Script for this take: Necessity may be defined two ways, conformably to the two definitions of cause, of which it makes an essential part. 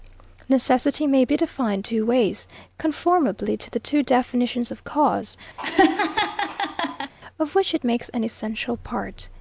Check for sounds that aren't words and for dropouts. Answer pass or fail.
fail